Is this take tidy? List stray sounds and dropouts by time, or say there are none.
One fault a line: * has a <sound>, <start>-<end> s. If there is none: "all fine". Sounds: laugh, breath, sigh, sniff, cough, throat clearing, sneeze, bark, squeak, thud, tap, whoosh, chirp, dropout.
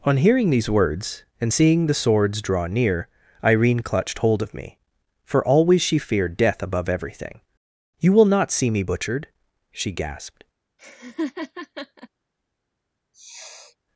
* has a laugh, 10.8-12.1 s
* has a sniff, 13.1-13.8 s